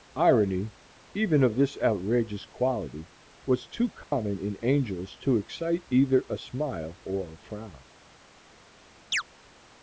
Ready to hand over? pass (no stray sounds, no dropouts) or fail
fail